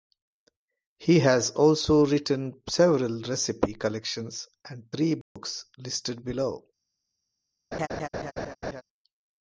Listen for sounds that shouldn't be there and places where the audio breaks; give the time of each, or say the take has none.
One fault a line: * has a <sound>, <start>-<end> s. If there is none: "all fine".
* has a dropout, 5.2-5.4 s
* has a laugh, 7.7-8.8 s